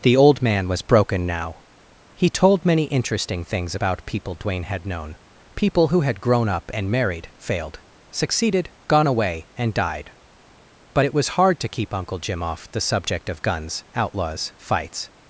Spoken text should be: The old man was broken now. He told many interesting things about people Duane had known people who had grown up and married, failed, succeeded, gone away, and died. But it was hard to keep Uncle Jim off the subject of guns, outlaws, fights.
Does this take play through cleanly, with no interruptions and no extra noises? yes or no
yes